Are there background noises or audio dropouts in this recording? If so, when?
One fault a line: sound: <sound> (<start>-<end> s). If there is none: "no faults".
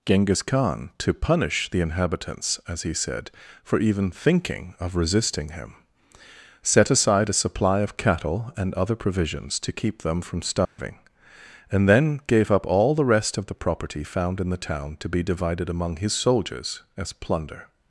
sound: dropout (10.6-10.8 s)